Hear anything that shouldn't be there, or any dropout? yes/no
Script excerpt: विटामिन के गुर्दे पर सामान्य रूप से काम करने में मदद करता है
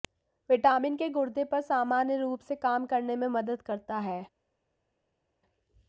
no